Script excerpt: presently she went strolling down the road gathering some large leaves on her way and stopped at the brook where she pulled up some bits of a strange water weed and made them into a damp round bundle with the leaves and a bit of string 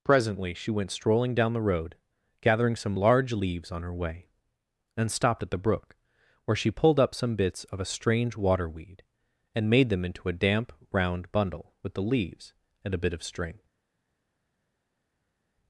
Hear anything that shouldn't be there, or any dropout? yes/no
no